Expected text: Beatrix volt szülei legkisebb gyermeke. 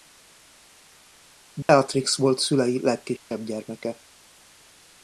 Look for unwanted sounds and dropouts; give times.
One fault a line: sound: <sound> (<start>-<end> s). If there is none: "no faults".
sound: dropout (1.6-1.7 s)
sound: dropout (3.2-3.3 s)